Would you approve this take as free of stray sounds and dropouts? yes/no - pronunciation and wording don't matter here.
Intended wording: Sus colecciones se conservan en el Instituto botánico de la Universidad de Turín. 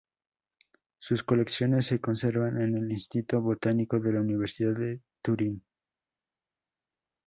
yes